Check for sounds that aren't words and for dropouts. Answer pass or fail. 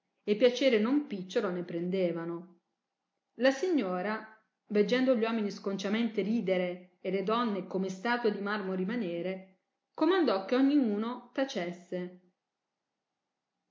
pass